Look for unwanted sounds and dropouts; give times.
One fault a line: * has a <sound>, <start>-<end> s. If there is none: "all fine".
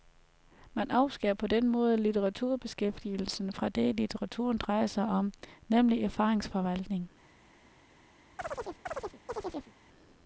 * has a chirp, 8.4-9.7 s